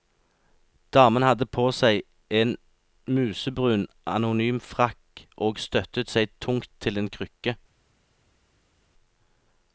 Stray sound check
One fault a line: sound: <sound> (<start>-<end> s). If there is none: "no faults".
no faults